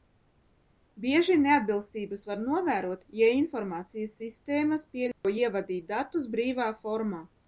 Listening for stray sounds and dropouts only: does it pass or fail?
fail